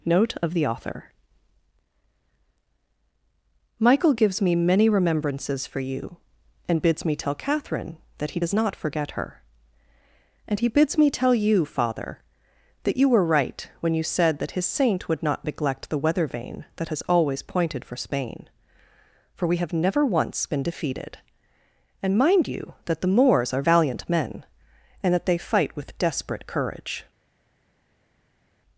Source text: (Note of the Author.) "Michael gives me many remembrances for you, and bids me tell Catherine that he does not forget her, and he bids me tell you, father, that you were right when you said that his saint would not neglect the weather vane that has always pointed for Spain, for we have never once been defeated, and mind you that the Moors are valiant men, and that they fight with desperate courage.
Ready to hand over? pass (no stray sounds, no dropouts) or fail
pass